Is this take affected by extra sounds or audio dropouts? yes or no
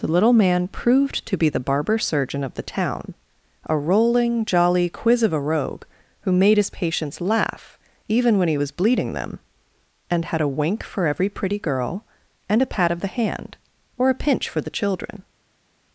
no